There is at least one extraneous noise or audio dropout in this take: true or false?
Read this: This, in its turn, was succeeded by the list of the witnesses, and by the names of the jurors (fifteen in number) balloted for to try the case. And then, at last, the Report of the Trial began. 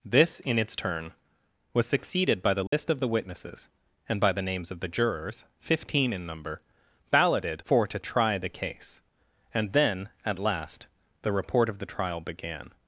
true